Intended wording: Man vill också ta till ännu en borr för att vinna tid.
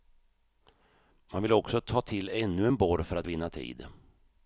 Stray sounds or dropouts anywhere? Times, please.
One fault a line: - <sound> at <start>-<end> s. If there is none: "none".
none